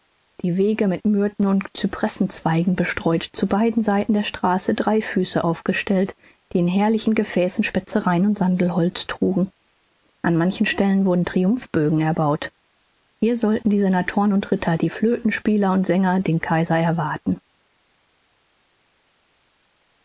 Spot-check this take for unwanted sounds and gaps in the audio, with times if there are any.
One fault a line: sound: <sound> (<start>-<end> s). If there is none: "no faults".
no faults